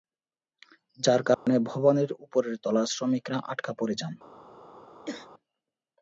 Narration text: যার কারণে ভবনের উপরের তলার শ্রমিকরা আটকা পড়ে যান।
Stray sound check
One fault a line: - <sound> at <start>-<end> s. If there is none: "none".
- dropout at 1.3-1.5 s
- throat clearing at 5.1-5.3 s